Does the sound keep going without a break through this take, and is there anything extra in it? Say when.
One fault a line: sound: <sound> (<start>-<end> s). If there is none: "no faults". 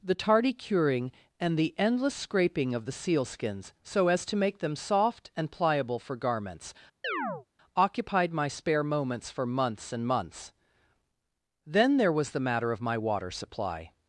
sound: chirp (7.0-7.5 s)